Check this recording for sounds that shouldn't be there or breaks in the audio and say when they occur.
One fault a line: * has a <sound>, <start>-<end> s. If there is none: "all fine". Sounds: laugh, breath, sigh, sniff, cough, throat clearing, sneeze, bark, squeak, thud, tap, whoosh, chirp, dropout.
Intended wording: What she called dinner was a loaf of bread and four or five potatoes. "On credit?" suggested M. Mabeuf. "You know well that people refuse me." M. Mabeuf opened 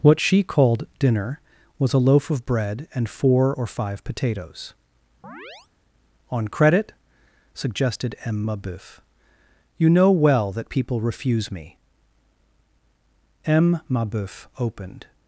* has a chirp, 5.2-5.7 s